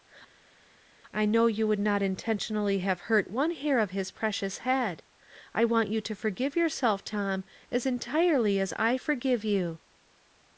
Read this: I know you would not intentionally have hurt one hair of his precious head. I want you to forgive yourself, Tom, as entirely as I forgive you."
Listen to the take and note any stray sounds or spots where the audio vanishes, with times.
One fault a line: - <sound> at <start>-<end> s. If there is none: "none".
none